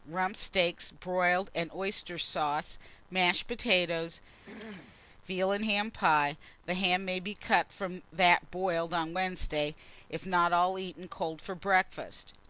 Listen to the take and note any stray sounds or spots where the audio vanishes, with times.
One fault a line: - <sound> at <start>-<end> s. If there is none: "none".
- throat clearing at 4.4-5.0 s